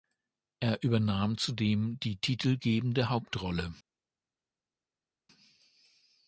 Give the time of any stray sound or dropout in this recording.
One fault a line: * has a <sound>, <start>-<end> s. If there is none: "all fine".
all fine